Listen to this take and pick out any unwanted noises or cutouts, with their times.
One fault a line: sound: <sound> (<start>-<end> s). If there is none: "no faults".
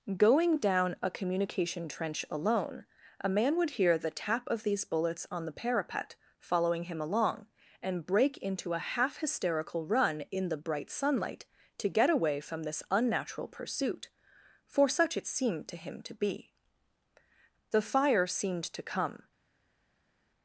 no faults